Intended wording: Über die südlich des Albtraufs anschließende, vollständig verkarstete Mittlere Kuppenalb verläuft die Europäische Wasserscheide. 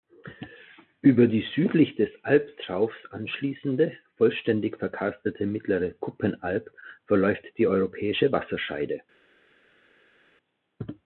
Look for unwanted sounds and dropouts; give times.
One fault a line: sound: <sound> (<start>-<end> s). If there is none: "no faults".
no faults